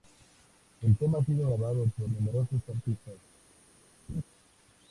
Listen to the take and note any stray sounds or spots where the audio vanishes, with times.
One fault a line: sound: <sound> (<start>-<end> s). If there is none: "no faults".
sound: laugh (4.1-4.2 s)